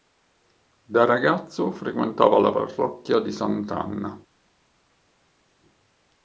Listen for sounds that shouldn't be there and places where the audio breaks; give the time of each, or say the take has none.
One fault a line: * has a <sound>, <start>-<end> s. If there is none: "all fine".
all fine